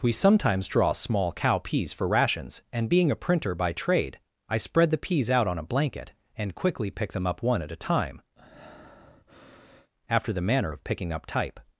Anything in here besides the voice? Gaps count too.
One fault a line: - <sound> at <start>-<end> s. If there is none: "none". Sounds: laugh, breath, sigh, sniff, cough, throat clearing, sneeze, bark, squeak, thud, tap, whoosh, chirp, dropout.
- breath at 8.4-9.9 s